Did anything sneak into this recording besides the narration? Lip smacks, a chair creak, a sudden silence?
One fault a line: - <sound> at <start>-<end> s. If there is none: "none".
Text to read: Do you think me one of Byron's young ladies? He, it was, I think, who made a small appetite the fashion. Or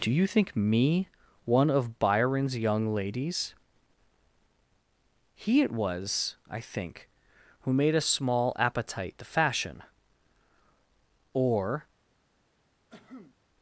- cough at 12.9-13.3 s